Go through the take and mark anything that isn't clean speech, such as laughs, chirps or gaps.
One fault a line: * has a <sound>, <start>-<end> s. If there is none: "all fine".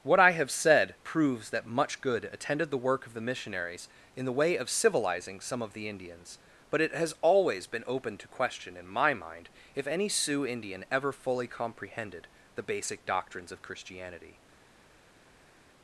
all fine